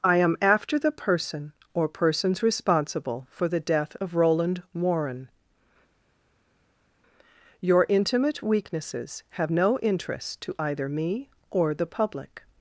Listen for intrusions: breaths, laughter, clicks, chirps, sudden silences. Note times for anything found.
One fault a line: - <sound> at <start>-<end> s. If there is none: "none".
none